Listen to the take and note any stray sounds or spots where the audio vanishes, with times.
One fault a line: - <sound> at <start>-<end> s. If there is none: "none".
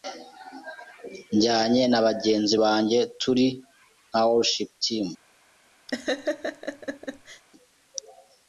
- laugh at 5.9-7.4 s